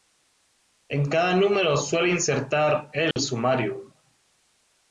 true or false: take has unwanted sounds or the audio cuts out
true